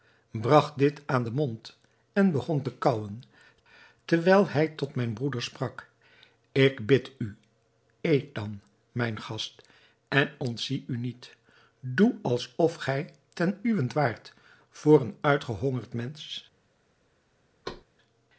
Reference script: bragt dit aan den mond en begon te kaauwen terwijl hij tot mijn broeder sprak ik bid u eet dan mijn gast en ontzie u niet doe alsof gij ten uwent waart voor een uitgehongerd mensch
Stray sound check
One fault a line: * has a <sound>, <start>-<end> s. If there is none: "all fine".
* has a thud, 17.6-17.8 s